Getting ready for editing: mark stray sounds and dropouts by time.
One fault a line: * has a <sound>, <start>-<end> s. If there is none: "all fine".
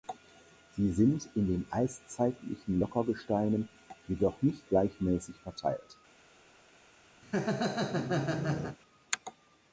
* has a laugh, 7.2-8.8 s